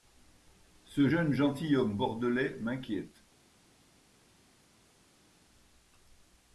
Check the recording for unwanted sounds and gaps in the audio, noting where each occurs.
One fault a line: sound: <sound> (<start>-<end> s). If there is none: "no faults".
no faults